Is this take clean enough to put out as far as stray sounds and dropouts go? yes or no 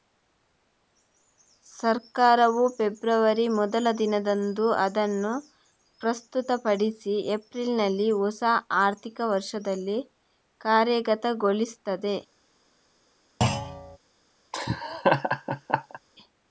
no